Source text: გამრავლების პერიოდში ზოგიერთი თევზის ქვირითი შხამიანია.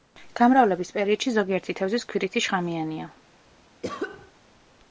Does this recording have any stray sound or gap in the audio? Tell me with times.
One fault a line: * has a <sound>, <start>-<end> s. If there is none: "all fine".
* has a cough, 3.8-4.3 s